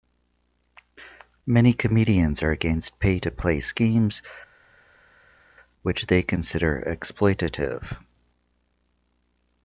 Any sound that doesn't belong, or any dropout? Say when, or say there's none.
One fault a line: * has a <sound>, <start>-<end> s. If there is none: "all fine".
all fine